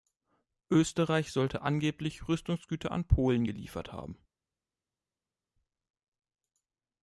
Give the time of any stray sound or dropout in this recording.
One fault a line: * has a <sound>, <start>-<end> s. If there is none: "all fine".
all fine